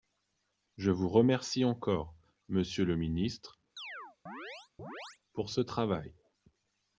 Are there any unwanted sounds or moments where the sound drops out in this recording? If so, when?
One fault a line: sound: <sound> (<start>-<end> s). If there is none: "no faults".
sound: chirp (3.8-5.2 s)